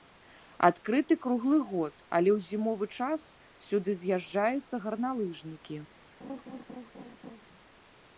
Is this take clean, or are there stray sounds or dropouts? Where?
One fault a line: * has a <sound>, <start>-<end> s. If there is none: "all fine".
* has a laugh, 6.2-7.5 s